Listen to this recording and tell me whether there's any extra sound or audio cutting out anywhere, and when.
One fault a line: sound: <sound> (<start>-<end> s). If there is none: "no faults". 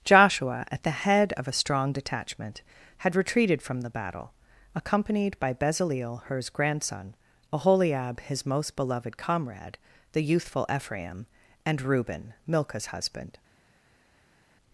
no faults